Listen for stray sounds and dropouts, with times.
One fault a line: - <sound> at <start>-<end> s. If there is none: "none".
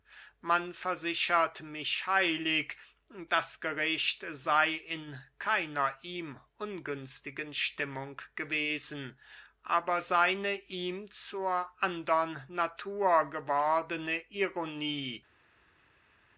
none